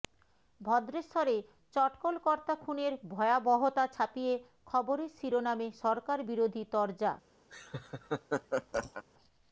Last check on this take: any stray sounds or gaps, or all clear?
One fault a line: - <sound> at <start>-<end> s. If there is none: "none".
- laugh at 7.5-9.0 s